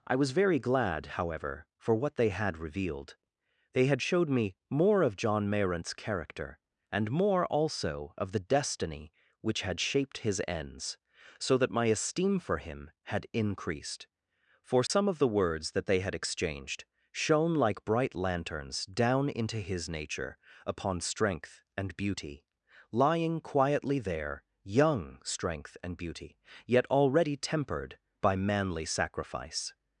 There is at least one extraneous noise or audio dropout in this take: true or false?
true